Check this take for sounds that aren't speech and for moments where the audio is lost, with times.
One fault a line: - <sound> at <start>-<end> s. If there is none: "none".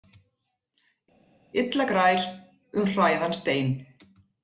none